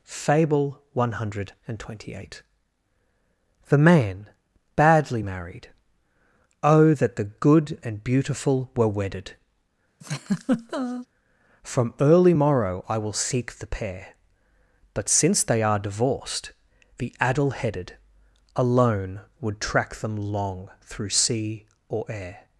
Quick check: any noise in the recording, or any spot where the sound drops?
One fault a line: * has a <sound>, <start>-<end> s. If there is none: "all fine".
* has a laugh, 10.0-11.1 s